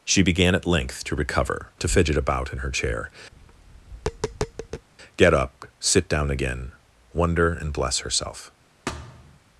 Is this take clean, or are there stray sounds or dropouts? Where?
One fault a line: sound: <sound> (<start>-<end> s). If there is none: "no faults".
sound: tap (3.3-4.9 s)
sound: thud (8.9-9.4 s)